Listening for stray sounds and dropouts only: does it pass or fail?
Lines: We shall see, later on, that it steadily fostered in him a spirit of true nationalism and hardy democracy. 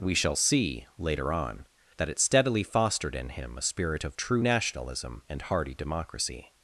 pass